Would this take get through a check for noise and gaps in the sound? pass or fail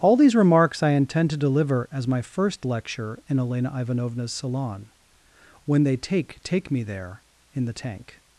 pass